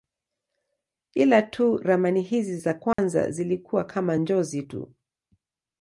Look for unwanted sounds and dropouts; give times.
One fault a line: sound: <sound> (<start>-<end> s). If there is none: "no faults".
sound: dropout (2.9-3.0 s)